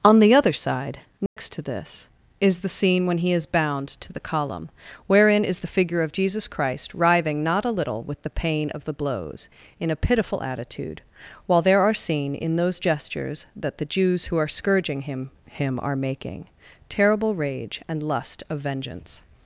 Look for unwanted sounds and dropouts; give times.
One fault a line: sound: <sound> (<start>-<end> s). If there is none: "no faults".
sound: dropout (1.3-1.4 s)